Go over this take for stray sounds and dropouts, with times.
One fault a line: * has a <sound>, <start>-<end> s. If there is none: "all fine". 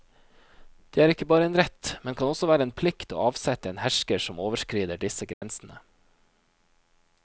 * has a dropout, 5.3-5.4 s